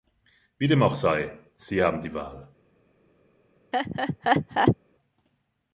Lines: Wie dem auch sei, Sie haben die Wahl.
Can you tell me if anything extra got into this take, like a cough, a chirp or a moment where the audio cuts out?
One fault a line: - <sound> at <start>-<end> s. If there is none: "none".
- laugh at 3.7-4.8 s